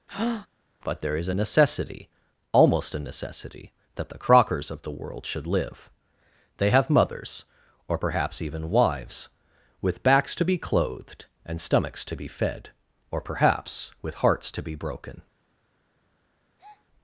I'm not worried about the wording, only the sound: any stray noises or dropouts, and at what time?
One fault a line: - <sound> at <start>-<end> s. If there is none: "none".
- breath at 0.1-0.5 s
- breath at 16.6-16.9 s